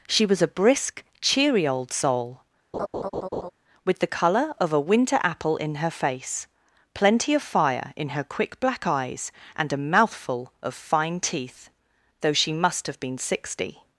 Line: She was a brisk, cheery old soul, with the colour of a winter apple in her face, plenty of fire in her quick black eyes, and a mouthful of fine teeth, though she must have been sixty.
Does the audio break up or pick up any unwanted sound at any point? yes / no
yes